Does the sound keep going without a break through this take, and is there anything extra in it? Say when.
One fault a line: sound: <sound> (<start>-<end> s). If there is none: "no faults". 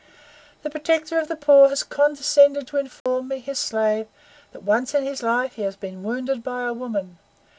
sound: dropout (3.0-3.1 s)